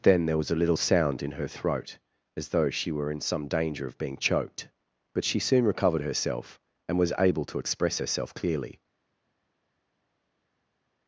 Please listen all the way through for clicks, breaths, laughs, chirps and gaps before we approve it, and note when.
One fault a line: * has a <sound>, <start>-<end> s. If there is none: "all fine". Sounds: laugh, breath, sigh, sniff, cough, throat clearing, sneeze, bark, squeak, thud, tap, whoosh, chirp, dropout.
all fine